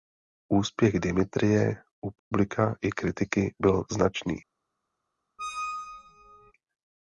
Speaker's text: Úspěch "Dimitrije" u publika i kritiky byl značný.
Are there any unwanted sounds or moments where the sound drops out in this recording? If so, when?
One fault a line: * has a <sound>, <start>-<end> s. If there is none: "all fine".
* has a dropout, 2.2-2.3 s
* has a squeak, 5.4-6.5 s